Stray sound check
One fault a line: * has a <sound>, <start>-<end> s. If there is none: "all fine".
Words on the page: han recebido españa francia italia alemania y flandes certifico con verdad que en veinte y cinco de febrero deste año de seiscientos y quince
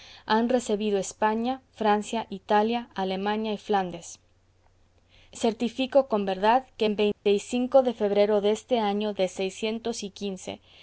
* has a dropout, 7.1-7.3 s